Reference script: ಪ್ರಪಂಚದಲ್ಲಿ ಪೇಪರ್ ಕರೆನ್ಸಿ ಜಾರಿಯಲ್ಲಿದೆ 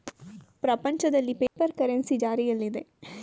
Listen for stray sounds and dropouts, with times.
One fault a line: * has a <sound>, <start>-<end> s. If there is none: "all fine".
* has a dropout, 1.5-1.6 s